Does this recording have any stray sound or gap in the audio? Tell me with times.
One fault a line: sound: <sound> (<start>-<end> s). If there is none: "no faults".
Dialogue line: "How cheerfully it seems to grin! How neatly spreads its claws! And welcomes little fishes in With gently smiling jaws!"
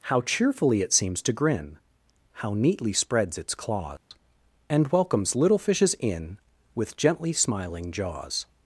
sound: dropout (4.0-4.1 s)